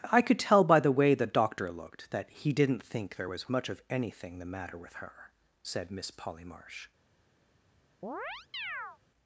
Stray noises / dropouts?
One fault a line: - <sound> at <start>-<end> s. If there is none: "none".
- chirp at 8.0-9.0 s